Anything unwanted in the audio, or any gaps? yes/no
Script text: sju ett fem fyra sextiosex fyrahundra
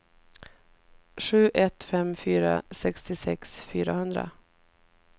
no